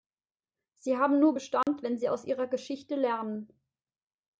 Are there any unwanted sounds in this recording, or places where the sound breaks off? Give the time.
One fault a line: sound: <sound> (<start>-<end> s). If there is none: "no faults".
sound: dropout (1.6-1.7 s)